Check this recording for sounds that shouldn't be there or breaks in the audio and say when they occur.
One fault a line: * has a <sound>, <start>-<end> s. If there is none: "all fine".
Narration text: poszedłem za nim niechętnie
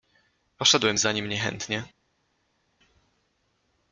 all fine